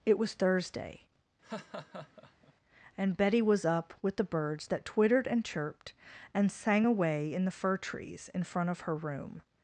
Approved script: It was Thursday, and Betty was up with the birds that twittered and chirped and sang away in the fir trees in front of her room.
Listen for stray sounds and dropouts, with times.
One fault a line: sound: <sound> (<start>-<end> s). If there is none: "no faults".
sound: laugh (1.4-2.5 s)